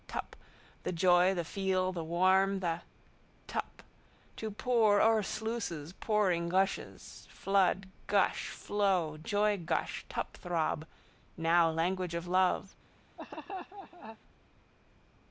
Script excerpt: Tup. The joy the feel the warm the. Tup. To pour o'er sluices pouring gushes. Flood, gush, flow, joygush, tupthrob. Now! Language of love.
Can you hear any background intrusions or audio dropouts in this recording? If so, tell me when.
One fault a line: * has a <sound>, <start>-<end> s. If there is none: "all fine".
* has a laugh, 13.2-14.2 s